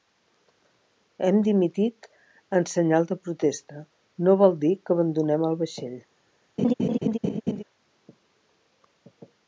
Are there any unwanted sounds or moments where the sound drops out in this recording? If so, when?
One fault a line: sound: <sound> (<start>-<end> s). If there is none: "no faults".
sound: laugh (6.6-7.6 s)